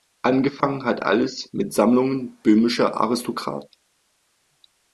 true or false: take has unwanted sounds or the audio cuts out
false